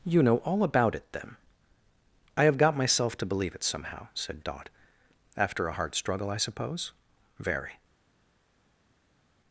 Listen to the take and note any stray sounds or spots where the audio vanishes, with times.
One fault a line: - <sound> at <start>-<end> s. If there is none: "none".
none